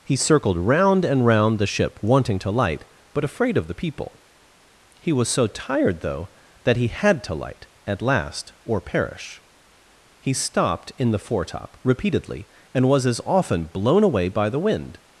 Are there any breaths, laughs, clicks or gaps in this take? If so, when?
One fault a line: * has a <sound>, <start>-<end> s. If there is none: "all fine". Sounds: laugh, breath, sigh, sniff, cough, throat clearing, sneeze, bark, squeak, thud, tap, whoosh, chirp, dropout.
all fine